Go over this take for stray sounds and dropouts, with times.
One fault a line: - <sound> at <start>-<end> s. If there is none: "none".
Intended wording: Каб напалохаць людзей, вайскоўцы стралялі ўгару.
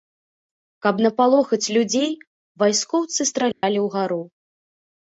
- dropout at 3.5-3.6 s